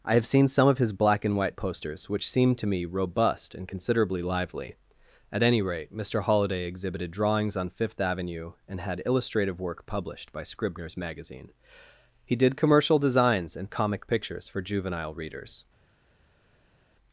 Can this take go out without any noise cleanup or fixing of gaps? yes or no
yes